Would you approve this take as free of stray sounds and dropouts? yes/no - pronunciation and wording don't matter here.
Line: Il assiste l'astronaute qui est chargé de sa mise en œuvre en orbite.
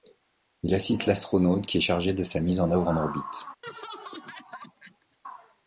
no